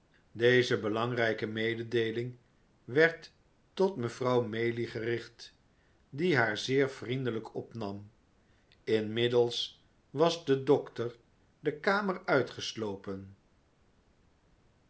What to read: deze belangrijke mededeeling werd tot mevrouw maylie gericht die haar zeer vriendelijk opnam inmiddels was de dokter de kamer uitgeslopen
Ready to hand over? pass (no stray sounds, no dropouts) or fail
pass